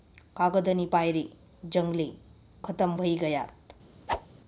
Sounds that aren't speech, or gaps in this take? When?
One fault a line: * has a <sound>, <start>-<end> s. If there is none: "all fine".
* has a whoosh, 4.1-4.3 s